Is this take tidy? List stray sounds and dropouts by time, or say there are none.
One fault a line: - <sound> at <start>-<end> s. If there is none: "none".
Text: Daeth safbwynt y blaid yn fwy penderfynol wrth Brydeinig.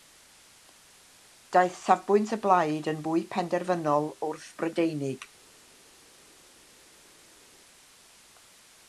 none